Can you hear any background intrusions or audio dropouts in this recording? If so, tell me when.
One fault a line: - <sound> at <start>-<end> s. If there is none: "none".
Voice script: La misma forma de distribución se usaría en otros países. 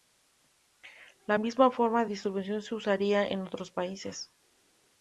none